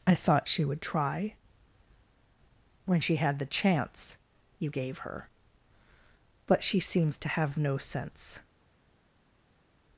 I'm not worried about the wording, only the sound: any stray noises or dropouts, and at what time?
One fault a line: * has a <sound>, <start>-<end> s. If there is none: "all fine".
all fine